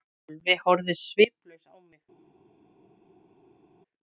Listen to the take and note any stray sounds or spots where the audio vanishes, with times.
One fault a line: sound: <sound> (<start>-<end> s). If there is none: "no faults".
no faults